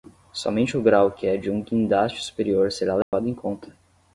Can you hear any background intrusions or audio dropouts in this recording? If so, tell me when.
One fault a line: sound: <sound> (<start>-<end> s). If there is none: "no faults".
sound: dropout (3.0-3.1 s)